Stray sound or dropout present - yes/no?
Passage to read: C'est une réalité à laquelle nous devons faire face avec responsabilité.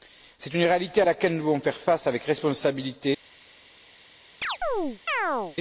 yes